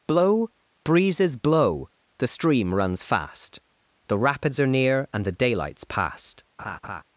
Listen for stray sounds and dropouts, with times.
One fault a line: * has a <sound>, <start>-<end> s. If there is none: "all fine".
* has a laugh, 6.6-7.0 s